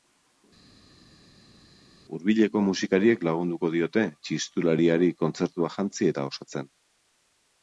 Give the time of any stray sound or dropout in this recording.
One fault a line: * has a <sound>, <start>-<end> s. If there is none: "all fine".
all fine